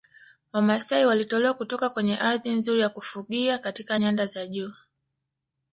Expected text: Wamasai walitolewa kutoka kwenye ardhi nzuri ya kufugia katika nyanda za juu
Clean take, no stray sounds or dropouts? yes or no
yes